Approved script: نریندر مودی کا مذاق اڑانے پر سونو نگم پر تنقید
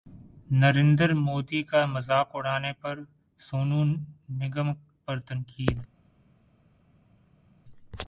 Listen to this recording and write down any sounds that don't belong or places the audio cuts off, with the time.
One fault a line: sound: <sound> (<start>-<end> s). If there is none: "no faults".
no faults